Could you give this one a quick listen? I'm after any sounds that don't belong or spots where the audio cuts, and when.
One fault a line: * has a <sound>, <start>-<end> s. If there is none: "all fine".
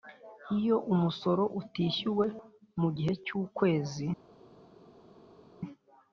all fine